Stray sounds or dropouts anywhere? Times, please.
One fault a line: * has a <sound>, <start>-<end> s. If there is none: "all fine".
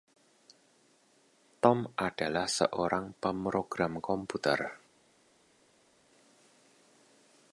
all fine